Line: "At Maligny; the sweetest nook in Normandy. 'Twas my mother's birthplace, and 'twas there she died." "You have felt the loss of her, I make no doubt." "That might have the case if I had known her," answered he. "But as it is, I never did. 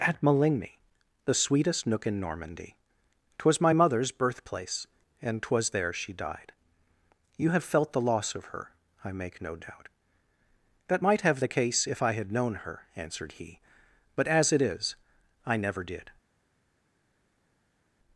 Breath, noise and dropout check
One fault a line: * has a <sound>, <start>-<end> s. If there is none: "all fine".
all fine